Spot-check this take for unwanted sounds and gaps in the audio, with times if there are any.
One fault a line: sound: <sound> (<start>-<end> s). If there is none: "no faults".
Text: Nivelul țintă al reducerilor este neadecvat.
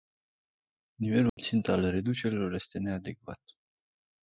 sound: dropout (1.3-1.4 s)